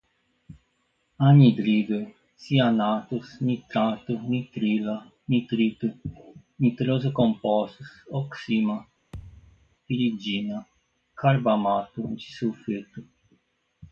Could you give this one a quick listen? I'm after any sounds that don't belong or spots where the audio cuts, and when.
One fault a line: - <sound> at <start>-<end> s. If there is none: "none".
- thud at 9.1-9.8 s